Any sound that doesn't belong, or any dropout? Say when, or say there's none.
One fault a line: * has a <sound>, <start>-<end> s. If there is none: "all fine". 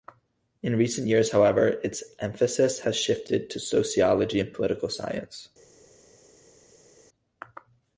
all fine